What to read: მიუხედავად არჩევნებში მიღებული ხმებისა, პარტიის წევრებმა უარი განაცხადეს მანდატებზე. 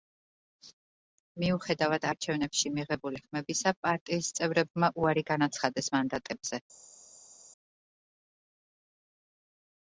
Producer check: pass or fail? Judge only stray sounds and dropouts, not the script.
pass